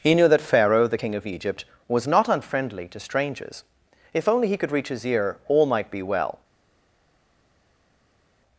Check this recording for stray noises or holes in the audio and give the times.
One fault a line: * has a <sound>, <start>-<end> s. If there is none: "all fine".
all fine